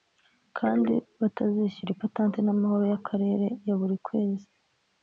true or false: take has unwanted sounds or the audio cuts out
false